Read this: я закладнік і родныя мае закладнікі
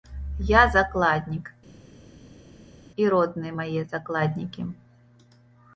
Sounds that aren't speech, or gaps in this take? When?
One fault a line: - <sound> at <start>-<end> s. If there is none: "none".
none